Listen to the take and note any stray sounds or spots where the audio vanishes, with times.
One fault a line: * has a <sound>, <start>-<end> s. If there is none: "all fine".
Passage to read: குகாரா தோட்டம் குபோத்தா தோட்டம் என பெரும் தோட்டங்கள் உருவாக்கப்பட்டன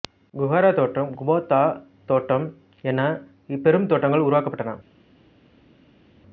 all fine